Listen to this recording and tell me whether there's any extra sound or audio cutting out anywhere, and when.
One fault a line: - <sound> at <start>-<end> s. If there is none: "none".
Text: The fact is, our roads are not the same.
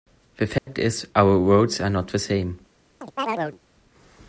- dropout at 0.6-0.7 s
- chirp at 3.0-3.6 s